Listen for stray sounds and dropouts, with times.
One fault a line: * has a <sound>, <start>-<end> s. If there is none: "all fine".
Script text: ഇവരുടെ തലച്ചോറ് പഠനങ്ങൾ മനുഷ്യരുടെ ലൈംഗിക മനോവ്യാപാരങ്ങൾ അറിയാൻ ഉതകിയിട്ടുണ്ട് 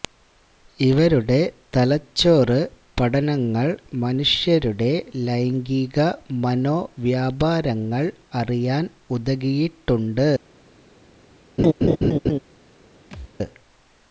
* has a laugh, 11.6-12.4 s
* has a thud, 13.1-13.3 s